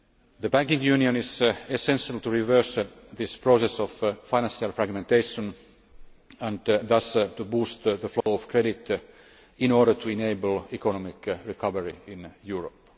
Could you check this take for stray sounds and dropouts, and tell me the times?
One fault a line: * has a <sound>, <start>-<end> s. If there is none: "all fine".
* has a dropout, 8.2-8.3 s